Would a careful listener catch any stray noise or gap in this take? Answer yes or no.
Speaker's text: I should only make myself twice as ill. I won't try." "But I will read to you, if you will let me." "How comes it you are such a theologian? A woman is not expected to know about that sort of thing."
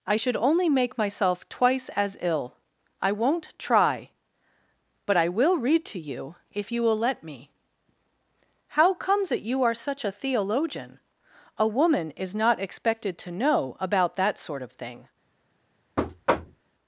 yes